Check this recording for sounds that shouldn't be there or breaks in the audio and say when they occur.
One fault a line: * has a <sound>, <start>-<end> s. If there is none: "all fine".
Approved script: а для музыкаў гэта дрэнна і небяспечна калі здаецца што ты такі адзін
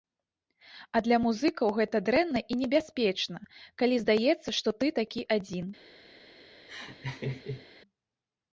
* has a laugh, 6.7-7.7 s